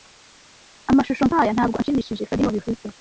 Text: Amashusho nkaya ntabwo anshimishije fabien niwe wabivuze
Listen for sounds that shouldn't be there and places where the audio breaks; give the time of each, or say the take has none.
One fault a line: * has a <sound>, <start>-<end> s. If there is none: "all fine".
all fine